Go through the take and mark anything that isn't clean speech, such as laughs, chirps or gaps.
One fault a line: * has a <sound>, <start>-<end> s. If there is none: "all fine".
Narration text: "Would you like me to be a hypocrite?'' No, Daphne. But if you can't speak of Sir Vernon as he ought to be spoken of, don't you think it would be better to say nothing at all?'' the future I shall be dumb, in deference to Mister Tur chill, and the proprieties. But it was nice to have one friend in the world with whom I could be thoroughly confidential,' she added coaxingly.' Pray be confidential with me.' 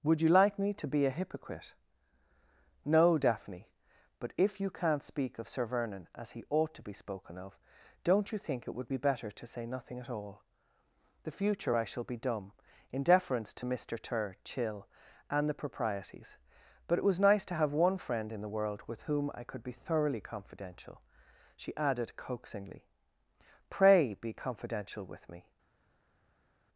all fine